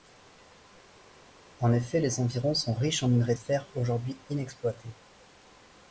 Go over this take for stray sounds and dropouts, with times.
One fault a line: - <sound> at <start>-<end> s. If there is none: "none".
none